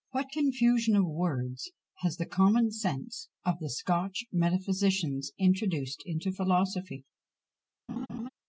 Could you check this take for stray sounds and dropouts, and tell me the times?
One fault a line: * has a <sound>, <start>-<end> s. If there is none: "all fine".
* has a laugh, 7.9-8.3 s